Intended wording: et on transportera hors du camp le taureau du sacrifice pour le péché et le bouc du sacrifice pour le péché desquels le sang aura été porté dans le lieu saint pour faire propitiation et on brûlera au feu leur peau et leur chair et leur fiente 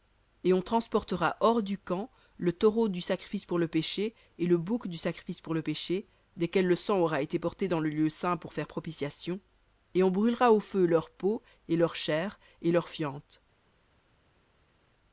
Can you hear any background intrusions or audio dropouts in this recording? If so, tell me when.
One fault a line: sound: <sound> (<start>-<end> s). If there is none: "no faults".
no faults